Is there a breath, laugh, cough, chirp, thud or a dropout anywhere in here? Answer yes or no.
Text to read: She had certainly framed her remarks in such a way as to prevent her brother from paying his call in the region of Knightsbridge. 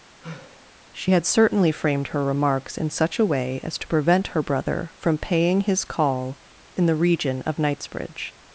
yes